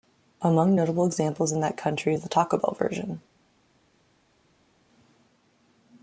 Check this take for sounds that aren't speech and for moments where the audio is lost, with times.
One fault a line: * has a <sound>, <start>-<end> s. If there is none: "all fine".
all fine